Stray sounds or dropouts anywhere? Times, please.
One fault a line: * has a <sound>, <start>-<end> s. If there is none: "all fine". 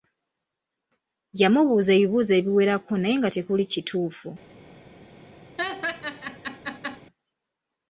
* has a laugh, 5.6-7.0 s